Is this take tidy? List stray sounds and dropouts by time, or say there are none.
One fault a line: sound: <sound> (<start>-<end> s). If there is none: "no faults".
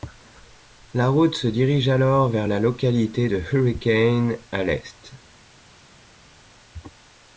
no faults